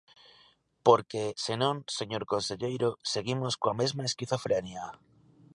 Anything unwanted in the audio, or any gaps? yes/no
no